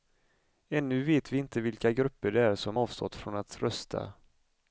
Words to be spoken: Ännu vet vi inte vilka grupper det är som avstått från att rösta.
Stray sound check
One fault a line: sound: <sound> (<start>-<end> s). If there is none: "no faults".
no faults